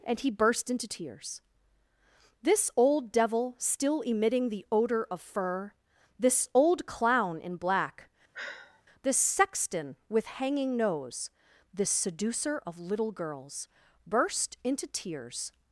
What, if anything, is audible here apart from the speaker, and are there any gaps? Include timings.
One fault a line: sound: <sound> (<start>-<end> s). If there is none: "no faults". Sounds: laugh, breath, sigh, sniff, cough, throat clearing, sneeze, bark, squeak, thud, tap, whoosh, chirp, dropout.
sound: sigh (8.3-8.8 s)